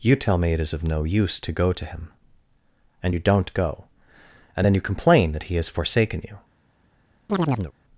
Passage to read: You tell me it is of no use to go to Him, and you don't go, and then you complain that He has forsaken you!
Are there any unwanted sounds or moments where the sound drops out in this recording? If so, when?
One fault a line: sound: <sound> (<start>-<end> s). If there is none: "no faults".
sound: chirp (7.3-7.7 s)